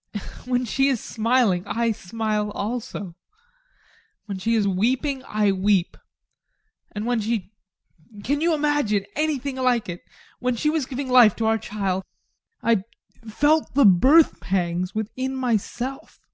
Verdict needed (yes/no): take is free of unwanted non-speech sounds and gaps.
yes